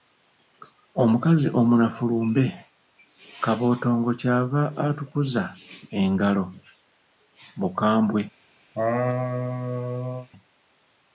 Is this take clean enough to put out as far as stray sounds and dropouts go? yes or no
no